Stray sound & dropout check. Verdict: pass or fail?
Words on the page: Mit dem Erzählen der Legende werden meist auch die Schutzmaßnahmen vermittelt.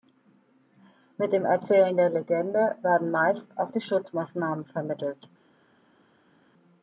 pass